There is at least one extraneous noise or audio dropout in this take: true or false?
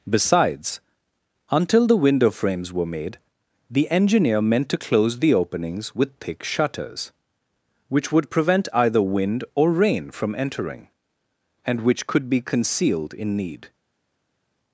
false